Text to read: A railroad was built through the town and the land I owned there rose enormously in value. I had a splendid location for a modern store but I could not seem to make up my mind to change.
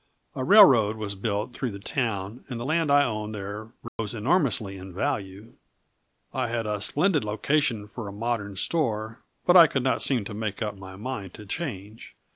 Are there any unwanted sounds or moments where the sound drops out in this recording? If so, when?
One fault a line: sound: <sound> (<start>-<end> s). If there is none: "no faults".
sound: dropout (3.9-4.0 s)